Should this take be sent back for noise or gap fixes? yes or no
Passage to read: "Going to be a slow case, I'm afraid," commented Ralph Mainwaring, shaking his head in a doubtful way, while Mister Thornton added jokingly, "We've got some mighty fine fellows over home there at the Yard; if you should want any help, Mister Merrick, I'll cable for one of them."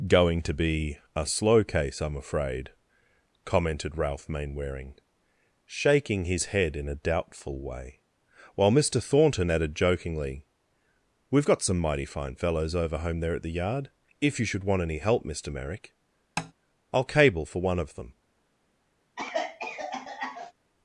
yes